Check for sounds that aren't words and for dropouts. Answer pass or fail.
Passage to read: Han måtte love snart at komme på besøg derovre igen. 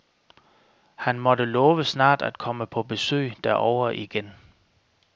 pass